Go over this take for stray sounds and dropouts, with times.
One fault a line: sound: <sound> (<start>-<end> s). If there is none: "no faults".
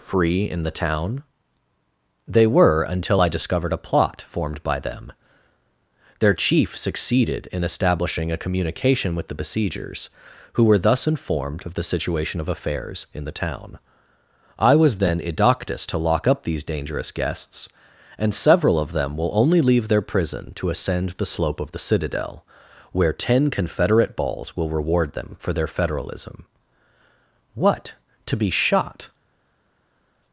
no faults